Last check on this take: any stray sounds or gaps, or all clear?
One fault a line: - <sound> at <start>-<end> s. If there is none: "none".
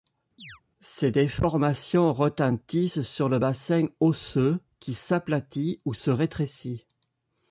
- chirp at 0.4-0.6 s